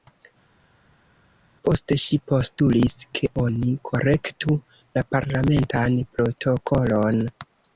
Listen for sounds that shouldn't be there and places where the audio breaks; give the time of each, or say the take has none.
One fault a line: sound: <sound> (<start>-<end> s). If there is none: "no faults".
no faults